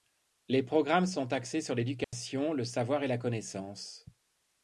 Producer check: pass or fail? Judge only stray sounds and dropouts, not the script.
fail